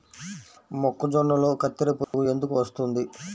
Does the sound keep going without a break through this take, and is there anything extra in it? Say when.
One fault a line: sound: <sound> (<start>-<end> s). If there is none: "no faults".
sound: dropout (2.0-2.1 s)